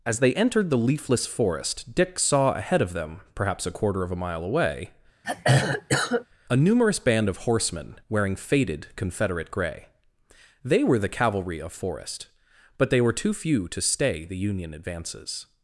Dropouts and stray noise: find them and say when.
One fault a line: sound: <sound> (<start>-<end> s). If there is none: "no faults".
sound: throat clearing (5.2-6.3 s)